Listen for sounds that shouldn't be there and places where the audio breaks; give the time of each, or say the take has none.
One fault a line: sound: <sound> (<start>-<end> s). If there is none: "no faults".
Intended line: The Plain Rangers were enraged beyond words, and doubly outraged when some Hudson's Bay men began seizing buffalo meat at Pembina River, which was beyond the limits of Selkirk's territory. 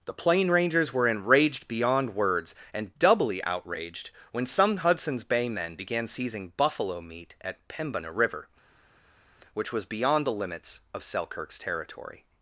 no faults